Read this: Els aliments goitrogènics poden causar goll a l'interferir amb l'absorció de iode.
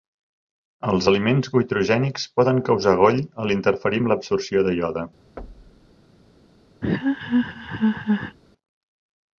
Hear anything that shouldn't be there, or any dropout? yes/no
yes